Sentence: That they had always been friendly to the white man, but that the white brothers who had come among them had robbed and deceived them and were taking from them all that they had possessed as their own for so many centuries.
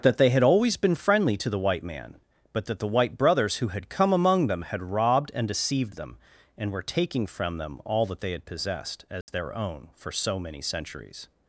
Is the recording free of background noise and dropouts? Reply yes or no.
no